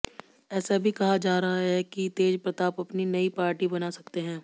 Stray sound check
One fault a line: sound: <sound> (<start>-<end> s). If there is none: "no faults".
no faults